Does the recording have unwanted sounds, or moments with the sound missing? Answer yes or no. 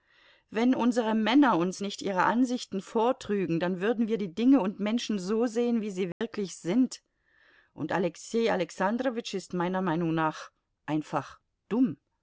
yes